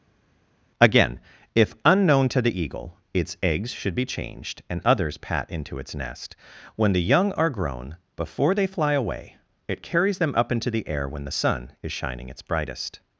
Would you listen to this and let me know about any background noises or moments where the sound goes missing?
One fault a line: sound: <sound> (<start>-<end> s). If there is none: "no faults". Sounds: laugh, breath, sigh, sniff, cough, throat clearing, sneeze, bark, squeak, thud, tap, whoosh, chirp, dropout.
no faults